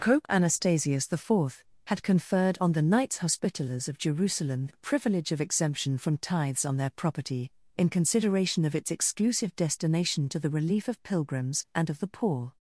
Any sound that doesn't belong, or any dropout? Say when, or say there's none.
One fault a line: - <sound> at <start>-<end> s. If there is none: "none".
none